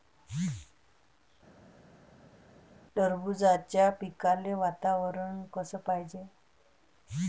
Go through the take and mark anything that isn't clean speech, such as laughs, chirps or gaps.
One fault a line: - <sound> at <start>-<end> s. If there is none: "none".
none